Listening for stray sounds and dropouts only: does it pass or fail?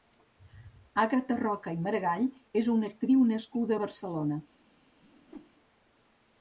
fail